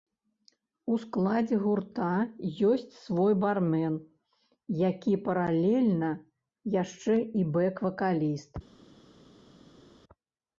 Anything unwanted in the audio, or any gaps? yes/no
no